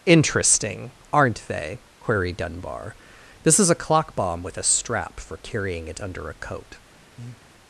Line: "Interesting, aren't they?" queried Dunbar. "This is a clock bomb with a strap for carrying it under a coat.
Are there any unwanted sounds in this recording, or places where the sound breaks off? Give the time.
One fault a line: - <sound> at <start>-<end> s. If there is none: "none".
- breath at 7.2-7.5 s